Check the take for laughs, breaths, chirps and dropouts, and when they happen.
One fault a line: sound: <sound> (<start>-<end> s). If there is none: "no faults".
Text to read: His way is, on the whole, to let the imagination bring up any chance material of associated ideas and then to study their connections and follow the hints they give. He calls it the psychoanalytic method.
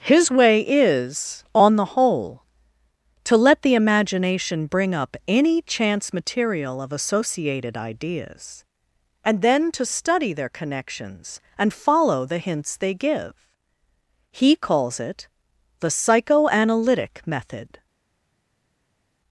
no faults